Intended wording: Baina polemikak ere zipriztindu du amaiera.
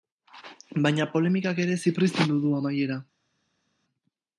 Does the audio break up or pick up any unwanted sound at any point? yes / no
no